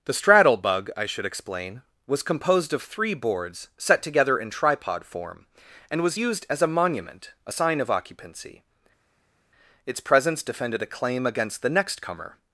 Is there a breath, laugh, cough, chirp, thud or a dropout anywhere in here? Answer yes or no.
no